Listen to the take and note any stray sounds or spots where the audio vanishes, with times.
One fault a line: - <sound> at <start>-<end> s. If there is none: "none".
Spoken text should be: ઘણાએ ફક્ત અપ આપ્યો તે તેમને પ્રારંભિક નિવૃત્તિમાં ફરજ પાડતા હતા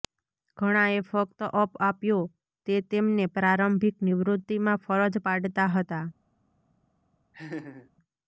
- laugh at 7.3-7.9 s